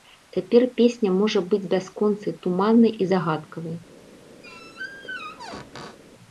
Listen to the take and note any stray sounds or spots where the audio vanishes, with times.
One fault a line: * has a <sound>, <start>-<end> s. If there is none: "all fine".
* has a squeak, 4.4-6.0 s